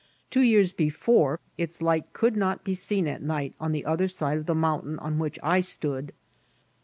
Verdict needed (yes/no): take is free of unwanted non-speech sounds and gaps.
yes